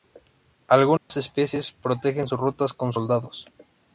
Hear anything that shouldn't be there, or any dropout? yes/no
yes